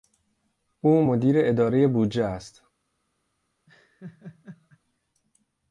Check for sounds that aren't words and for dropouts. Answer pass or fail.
fail